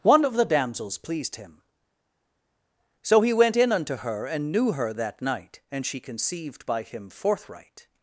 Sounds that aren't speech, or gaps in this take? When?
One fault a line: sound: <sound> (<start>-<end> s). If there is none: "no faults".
no faults